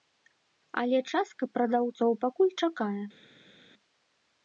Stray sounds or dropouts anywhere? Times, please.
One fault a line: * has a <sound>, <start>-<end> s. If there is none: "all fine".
all fine